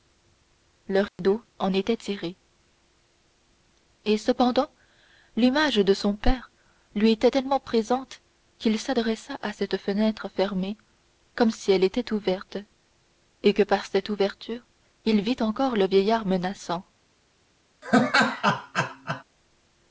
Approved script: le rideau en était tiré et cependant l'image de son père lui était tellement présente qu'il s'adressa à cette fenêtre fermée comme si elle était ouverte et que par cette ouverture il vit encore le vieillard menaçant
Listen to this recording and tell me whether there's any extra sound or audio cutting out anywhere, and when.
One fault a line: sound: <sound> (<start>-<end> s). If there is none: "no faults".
sound: dropout (1.1-1.2 s)
sound: laugh (17.8-19.2 s)